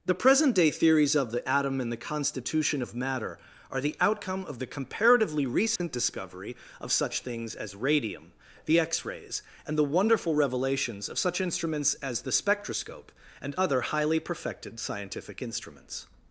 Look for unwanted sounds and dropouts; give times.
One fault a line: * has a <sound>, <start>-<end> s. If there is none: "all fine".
* has a dropout, 5.8-5.8 s